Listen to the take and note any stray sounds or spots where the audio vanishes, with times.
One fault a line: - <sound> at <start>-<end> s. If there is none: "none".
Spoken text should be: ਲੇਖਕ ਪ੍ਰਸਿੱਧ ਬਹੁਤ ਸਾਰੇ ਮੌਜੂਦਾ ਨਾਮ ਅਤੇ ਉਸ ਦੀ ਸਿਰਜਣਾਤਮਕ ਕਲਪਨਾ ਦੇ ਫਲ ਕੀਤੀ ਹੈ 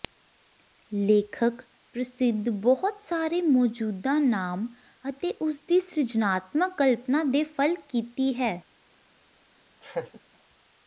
- laugh at 9.8-10.2 s